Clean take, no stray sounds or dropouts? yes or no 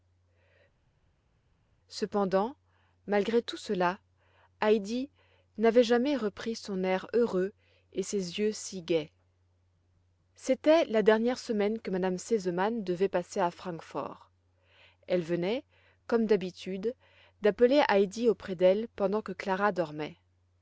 yes